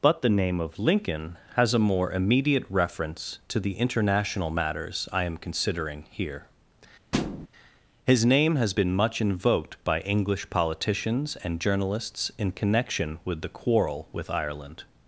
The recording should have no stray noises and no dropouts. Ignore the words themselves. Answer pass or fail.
fail